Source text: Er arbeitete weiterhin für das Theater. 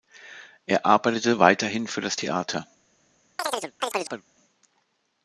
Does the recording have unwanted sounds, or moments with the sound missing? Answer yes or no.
yes